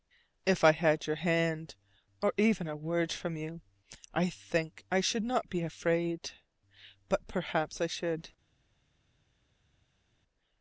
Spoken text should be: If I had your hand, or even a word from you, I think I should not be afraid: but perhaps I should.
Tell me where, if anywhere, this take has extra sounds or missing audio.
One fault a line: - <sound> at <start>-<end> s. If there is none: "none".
none